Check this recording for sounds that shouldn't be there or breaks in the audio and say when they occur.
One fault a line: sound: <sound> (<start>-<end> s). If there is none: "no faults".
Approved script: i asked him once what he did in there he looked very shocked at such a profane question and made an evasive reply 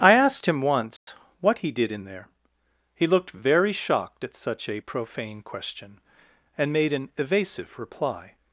sound: dropout (1.0-1.1 s)